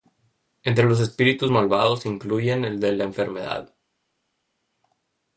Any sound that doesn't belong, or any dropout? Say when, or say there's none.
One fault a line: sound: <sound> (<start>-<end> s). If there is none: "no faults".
no faults